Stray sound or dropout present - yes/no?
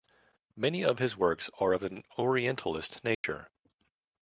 yes